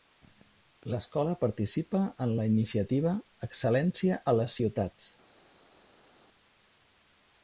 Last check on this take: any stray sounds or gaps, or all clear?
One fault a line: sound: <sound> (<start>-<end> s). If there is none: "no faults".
no faults